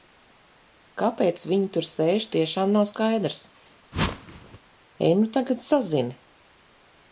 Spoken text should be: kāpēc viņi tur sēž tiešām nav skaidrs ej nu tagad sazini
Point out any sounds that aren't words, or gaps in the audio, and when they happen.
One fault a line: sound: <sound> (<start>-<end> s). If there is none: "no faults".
sound: whoosh (3.9-4.6 s)